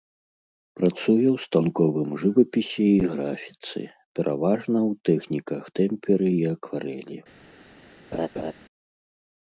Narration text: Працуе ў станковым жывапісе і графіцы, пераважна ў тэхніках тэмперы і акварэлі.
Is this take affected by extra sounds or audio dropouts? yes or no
yes